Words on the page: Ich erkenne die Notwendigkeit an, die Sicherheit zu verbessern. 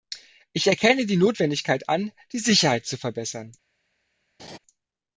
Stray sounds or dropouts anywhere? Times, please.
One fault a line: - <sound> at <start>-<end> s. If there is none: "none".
- laugh at 4.4-4.6 s